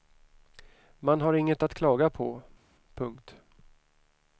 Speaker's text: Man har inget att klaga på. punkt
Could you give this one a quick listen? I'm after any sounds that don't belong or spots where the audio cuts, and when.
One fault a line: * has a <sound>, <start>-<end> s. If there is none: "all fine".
all fine